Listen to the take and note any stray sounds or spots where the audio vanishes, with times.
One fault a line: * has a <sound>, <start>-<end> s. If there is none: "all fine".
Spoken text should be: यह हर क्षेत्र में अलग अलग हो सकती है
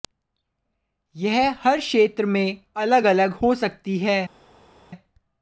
all fine